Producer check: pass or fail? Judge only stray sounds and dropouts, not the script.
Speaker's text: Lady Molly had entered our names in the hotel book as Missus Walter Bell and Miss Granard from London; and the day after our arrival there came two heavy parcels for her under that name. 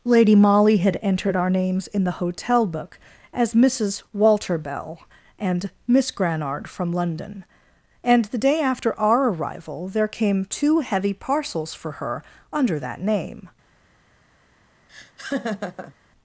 fail